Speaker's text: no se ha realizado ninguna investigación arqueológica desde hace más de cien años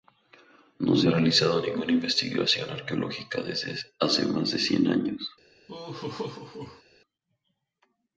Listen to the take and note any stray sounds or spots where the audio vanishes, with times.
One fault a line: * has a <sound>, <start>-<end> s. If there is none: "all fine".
* has a laugh, 5.7-6.8 s